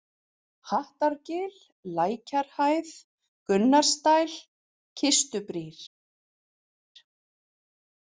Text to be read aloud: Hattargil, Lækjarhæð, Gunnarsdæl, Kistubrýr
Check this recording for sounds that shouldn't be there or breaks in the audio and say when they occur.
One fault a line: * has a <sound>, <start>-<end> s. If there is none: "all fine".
all fine